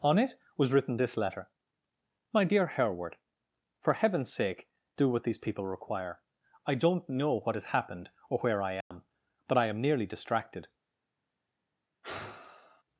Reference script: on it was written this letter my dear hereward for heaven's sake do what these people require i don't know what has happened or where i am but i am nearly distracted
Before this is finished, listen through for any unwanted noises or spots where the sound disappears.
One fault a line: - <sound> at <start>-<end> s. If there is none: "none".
- dropout at 8.8-8.9 s
- sigh at 12.0-12.8 s